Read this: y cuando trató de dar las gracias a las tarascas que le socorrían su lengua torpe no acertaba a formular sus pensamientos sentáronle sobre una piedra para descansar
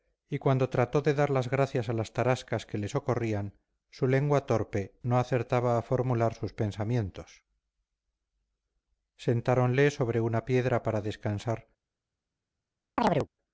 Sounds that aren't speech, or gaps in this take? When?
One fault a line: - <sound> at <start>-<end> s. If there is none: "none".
- chirp at 13.0-13.3 s